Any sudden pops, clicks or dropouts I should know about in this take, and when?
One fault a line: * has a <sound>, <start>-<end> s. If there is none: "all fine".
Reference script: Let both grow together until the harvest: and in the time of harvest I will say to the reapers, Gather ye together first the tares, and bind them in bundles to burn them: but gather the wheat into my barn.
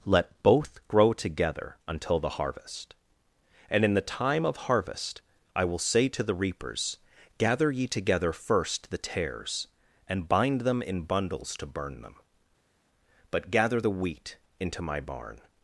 all fine